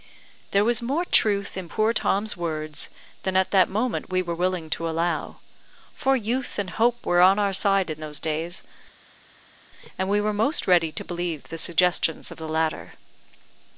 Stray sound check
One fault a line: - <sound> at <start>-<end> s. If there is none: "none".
none